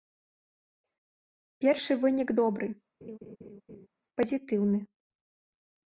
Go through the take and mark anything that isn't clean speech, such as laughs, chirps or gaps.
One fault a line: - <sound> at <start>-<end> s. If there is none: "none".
- laugh at 3.0-3.9 s